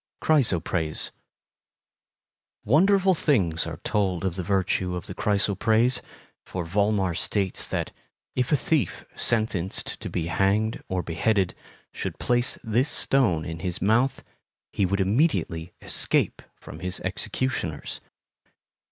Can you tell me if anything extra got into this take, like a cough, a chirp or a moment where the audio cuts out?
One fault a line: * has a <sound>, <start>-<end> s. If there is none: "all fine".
all fine